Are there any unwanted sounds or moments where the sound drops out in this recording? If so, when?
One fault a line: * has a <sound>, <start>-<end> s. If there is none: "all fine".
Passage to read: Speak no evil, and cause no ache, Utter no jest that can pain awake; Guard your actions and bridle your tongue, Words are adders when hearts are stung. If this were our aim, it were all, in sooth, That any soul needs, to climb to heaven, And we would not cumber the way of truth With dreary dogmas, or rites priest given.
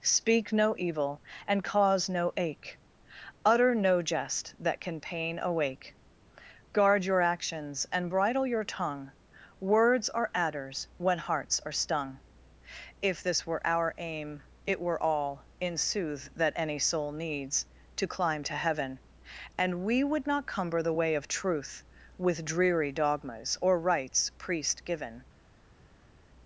all fine